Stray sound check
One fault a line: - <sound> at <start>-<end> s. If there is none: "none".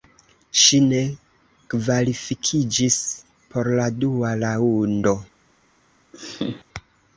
- laugh at 6.1-6.6 s